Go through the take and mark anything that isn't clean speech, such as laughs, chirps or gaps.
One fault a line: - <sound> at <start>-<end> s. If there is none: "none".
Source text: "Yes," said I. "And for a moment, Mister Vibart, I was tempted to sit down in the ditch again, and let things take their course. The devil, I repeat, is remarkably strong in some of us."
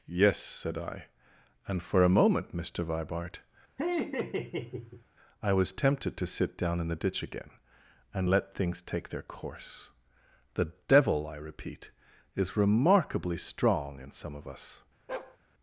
- laugh at 3.8-5.0 s
- bark at 15.1-15.4 s